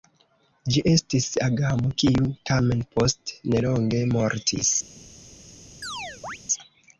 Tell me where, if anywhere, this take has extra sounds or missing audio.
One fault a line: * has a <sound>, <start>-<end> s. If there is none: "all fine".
* has a chirp, 5.8-6.4 s